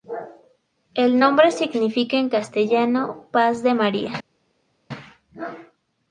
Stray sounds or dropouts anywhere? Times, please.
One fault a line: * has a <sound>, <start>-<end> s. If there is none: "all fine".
all fine